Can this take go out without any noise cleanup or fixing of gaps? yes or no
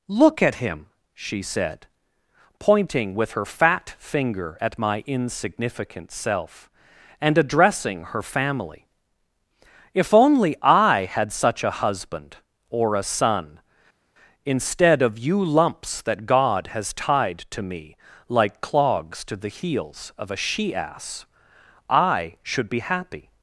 yes